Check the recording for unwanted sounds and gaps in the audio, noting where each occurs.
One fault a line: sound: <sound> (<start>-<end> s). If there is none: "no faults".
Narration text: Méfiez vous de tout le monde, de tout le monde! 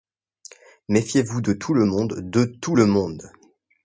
no faults